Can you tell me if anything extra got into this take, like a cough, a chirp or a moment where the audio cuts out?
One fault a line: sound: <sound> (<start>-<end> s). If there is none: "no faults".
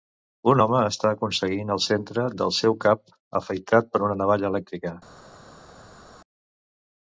no faults